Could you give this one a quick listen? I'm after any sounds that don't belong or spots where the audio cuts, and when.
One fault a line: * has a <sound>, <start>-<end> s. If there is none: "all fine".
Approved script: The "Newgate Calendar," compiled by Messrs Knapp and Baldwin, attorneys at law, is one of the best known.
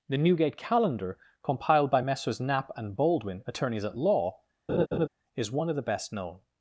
* has a laugh, 4.7-5.1 s